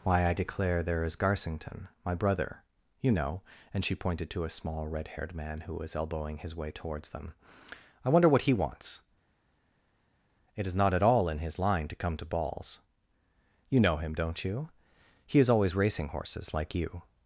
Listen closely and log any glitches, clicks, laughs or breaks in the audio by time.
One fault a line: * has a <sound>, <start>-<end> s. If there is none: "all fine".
all fine